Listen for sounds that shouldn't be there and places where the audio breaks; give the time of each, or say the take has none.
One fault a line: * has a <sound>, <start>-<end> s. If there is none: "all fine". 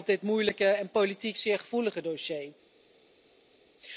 all fine